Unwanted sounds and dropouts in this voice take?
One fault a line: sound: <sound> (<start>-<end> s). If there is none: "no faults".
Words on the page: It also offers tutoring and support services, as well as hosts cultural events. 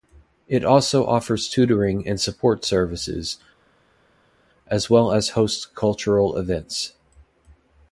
no faults